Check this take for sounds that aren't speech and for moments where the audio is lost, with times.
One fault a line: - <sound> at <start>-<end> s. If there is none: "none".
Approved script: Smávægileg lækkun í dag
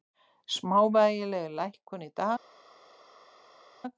none